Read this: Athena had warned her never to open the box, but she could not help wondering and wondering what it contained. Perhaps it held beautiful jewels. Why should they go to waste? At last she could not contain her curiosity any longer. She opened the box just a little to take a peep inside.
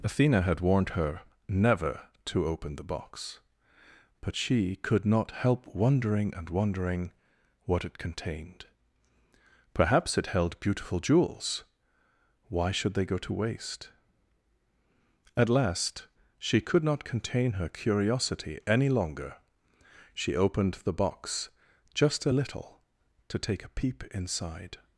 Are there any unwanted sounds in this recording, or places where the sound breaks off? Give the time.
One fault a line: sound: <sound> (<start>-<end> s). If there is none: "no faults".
no faults